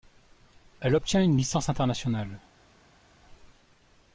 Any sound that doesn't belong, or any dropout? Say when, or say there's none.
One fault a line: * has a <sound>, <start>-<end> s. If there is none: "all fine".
all fine